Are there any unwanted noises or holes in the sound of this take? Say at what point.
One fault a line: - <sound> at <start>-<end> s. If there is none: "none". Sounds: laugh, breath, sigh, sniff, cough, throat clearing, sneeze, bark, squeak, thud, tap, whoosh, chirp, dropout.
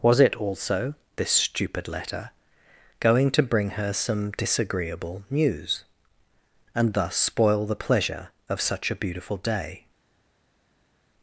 none